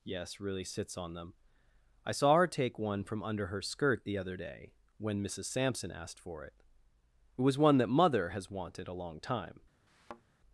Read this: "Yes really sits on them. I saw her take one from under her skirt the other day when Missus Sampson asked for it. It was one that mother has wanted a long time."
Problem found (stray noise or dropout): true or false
true